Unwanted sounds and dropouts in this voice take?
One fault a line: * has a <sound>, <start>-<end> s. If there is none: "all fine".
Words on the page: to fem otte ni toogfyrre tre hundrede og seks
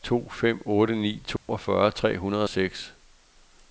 * has a dropout, 1.4-1.5 s